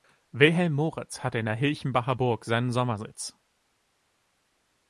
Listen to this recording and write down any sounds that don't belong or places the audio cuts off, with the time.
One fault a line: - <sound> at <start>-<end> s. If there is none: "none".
none